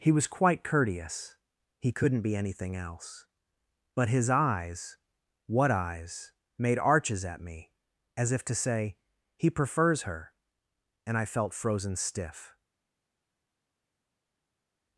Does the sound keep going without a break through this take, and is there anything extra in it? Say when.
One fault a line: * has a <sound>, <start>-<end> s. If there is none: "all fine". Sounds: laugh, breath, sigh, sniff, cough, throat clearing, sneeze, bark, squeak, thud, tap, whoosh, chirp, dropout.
all fine